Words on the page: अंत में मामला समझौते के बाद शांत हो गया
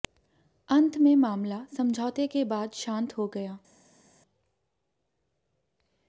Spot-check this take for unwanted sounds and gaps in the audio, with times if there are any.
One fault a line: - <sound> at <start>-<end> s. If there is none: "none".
none